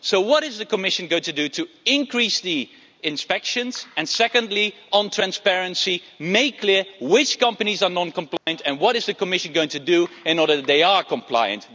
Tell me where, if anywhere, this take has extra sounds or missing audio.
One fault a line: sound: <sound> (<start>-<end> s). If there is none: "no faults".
sound: dropout (8.4-8.5 s)